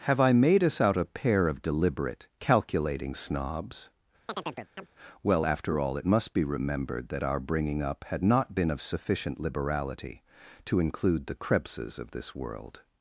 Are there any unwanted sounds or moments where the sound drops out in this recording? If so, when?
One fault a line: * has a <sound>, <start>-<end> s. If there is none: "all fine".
* has a chirp, 4.3-4.9 s